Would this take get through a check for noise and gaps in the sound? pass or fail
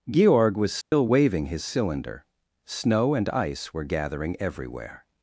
fail